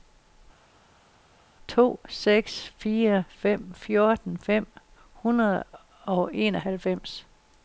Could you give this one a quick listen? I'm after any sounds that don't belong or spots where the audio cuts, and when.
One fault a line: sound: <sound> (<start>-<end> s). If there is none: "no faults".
no faults